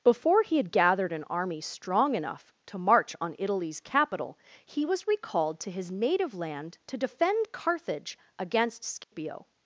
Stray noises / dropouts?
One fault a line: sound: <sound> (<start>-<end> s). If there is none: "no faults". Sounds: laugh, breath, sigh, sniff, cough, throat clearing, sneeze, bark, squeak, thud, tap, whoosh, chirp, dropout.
sound: dropout (9.0-9.1 s)